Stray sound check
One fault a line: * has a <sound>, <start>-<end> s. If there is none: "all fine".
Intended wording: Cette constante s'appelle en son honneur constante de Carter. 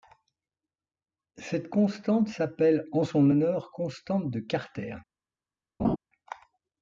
* has a laugh, 5.8-6.0 s